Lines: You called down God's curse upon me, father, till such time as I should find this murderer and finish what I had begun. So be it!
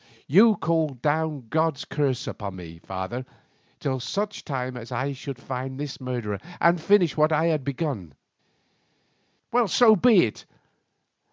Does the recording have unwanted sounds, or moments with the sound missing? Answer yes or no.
no